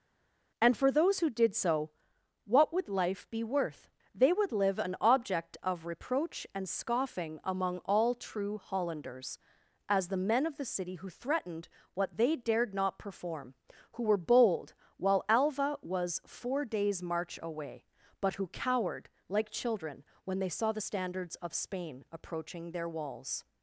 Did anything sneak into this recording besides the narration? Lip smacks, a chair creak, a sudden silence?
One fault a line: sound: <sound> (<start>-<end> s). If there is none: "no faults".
no faults